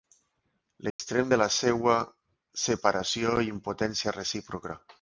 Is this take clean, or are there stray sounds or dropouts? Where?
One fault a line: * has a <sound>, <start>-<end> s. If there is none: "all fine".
* has a dropout, 0.9-1.0 s